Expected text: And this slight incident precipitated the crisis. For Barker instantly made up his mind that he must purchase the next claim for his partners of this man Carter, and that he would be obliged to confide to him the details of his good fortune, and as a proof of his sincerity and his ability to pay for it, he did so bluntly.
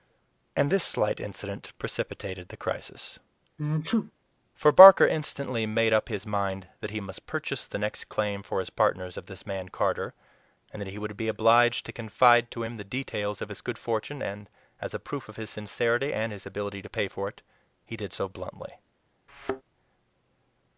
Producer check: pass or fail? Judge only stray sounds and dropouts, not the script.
fail